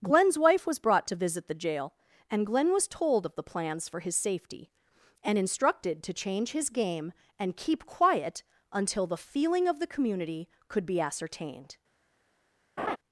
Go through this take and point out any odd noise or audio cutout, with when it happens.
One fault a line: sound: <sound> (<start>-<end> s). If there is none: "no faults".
sound: laugh (12.8-13.0 s)